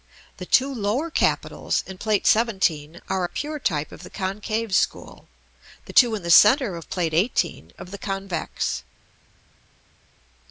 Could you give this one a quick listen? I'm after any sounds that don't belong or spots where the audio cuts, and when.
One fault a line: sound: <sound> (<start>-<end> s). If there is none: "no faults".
no faults